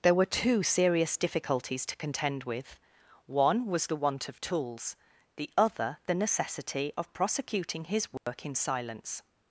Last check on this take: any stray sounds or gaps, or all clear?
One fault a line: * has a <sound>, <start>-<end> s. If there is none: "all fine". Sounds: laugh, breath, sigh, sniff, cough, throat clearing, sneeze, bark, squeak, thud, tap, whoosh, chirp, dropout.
* has a dropout, 8.2-8.3 s